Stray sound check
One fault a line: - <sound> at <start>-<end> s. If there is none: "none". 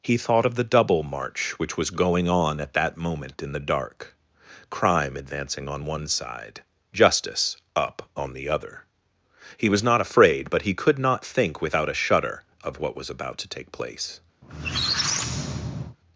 - squeak at 14.4-16.0 s